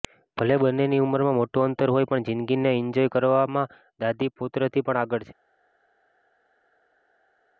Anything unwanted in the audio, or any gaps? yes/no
no